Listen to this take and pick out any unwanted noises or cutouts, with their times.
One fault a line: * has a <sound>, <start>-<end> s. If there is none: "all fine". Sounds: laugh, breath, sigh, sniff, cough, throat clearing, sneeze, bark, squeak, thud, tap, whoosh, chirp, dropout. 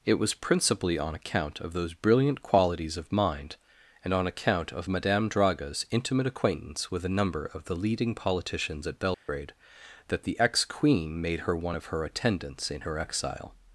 * has a dropout, 9.1-9.3 s